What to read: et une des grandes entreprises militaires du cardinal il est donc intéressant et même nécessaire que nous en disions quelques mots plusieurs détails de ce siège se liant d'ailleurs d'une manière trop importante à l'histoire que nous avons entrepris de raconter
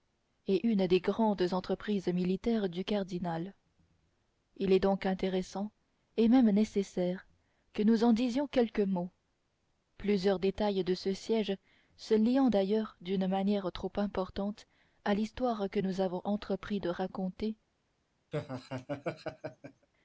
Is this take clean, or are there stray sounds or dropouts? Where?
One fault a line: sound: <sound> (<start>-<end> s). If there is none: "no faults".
sound: laugh (18.3-19.9 s)